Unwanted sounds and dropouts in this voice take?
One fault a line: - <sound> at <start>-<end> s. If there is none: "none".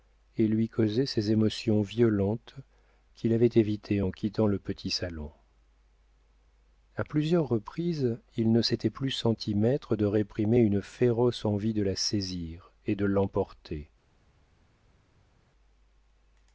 none